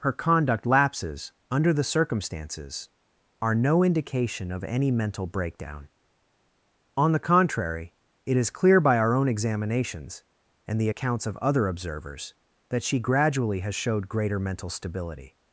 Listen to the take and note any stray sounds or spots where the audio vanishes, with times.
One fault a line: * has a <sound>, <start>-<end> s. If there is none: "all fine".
all fine